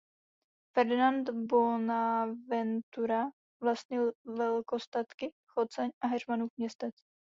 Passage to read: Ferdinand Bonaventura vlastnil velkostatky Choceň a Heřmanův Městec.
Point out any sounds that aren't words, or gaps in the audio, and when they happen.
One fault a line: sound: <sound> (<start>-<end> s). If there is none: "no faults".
no faults